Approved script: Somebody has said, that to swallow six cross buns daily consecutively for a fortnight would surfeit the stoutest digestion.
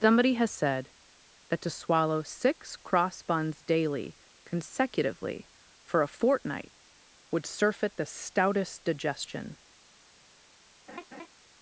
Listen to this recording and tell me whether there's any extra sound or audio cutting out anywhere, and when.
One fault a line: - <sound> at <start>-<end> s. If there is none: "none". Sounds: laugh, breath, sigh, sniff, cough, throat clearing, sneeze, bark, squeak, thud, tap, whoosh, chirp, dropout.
- laugh at 10.9-11.3 s